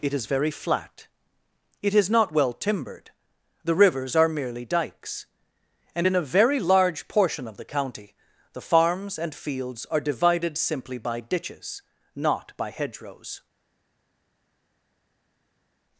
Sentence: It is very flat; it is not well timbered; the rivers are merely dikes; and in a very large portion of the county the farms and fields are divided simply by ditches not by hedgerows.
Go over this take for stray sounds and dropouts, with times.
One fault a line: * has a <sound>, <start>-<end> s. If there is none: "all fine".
all fine